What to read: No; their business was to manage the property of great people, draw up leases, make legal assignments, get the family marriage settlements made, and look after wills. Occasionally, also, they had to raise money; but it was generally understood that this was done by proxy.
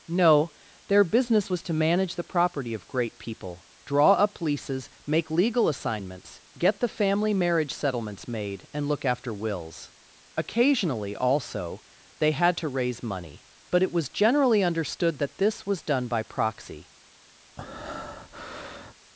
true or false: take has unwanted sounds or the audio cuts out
true